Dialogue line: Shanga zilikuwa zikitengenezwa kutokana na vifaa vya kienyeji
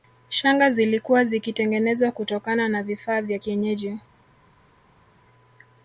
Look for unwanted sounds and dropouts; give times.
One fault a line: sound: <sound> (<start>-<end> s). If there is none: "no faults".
no faults